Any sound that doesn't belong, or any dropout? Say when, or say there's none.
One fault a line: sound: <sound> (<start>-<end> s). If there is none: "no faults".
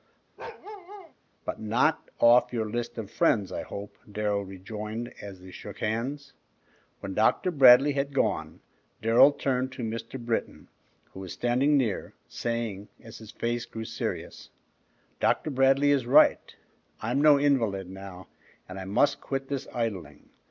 sound: bark (0.4-1.1 s)